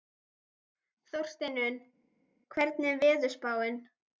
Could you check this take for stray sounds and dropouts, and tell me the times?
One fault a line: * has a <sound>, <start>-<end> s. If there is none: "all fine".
all fine